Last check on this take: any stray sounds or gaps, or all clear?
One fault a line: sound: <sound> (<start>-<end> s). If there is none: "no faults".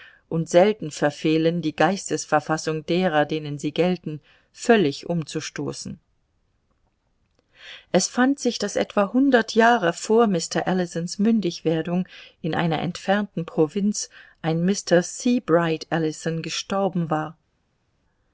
no faults